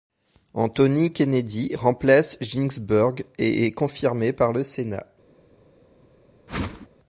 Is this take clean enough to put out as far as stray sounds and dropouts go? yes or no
no